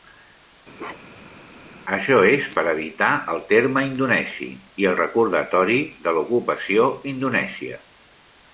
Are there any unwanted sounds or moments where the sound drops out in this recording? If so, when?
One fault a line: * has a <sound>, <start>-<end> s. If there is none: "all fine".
* has a bark, 0.8-1.4 s